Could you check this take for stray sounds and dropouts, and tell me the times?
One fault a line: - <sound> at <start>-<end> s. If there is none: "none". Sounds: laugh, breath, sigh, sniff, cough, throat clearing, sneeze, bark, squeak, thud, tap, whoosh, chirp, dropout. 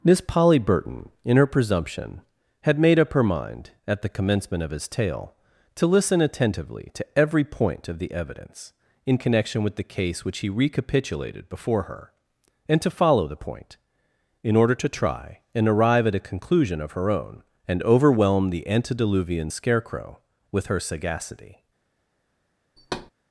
- thud at 22.8-23.1 s